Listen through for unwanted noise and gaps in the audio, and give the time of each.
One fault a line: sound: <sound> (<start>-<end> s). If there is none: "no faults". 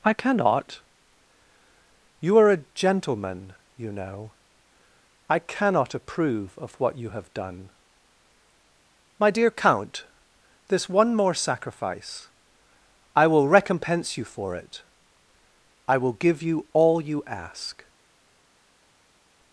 no faults